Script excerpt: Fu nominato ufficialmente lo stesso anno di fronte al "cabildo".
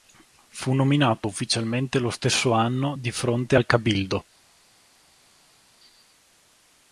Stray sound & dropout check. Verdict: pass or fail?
pass